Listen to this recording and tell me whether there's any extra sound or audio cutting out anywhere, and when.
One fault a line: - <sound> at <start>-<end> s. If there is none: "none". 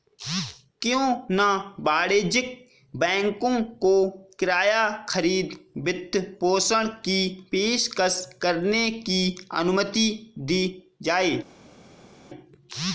none